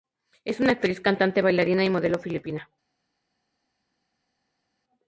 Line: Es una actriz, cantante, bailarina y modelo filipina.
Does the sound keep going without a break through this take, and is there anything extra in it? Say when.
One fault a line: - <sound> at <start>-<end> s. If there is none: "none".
none